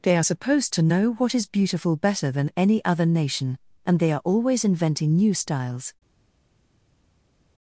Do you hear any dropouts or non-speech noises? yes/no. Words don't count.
no